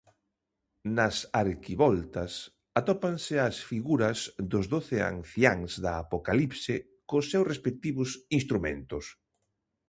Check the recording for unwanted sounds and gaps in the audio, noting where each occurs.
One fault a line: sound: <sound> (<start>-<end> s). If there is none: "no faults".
no faults